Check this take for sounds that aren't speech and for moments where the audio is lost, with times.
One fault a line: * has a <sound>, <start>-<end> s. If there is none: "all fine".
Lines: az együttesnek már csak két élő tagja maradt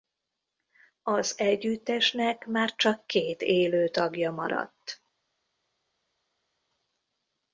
all fine